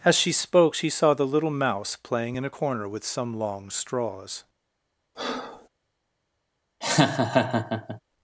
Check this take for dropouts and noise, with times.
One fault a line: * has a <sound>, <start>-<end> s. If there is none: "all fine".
* has a breath, 5.1-5.7 s
* has a laugh, 6.8-8.0 s